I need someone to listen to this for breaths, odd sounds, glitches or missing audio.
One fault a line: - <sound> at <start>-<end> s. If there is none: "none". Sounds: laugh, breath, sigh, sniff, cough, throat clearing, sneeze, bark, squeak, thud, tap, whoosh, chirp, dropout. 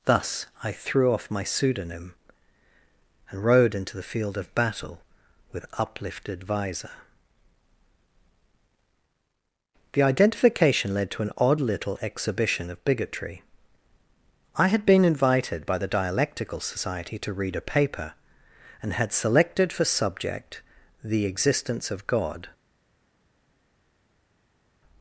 none